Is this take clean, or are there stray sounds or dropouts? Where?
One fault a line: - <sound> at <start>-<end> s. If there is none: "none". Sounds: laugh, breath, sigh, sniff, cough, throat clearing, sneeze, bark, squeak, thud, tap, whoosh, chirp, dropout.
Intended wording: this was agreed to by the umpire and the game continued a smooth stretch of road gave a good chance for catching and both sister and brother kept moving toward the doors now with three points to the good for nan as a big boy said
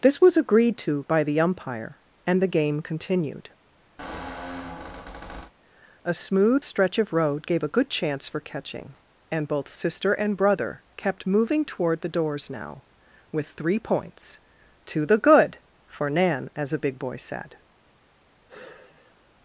- squeak at 4.0-5.5 s
- sigh at 18.5-19.3 s